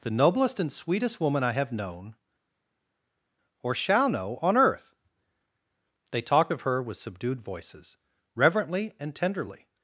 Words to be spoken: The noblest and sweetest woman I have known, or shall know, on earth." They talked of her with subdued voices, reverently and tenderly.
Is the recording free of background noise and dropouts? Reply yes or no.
yes